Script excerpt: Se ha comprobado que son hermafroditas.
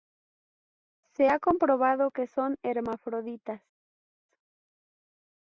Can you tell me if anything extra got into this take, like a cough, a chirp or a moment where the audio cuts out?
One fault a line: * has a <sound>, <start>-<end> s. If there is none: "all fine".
all fine